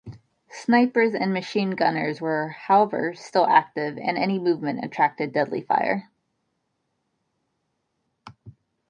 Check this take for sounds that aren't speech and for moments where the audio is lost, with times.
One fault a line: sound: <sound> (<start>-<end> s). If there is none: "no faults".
no faults